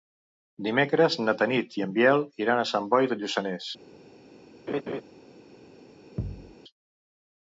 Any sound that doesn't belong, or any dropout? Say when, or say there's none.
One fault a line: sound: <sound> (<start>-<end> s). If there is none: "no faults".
sound: laugh (4.7-5.0 s)
sound: thud (6.2-6.5 s)